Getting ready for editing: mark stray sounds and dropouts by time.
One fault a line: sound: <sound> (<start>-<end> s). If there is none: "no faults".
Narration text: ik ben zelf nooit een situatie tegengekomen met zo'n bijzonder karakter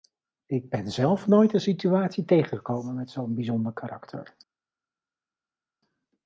no faults